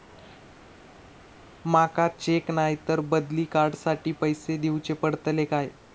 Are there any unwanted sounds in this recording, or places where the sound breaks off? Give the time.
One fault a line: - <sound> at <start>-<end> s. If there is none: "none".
none